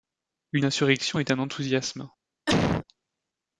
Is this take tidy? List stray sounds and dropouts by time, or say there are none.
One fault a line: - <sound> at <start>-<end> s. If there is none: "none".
- cough at 2.5-2.8 s